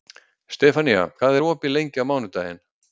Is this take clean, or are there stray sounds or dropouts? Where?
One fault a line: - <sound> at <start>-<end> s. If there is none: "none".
none